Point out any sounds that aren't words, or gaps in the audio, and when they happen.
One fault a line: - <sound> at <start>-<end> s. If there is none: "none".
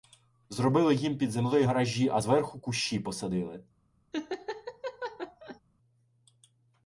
- laugh at 4.1-5.6 s